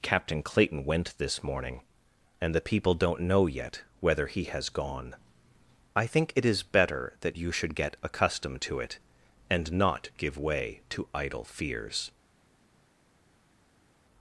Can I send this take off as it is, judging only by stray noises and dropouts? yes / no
yes